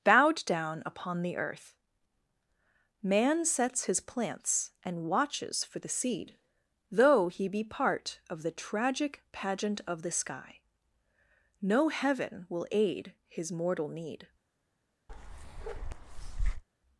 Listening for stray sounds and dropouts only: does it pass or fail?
fail